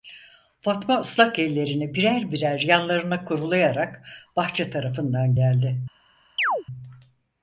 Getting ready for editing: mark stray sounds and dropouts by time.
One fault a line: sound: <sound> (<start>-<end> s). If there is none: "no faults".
sound: chirp (6.4-6.6 s)